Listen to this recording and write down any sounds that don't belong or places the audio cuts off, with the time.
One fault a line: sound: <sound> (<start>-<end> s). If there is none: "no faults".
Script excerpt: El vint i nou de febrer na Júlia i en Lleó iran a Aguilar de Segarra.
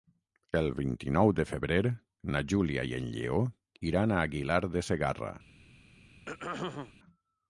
sound: throat clearing (6.3-6.9 s)